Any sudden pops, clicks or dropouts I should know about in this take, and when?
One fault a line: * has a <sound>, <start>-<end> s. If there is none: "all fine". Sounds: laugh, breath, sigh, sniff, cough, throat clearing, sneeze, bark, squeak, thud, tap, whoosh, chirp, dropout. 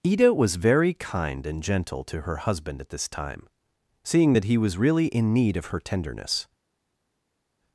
all fine